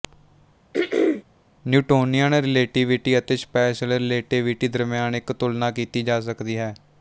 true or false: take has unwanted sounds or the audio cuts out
true